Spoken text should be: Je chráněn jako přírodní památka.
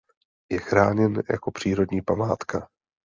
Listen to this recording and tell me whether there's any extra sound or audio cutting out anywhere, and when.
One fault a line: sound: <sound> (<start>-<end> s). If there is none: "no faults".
no faults